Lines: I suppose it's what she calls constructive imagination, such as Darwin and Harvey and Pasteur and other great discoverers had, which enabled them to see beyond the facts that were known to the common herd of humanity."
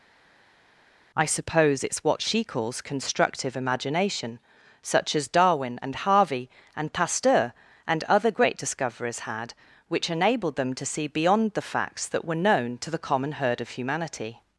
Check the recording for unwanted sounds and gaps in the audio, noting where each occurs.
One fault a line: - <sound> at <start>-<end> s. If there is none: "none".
none